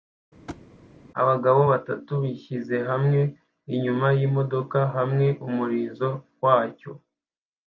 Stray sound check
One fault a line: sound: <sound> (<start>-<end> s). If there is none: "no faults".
sound: thud (0.5-0.7 s)